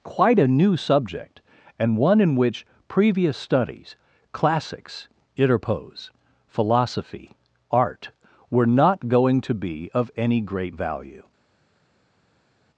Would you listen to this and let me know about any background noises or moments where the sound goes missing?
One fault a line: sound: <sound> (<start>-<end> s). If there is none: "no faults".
no faults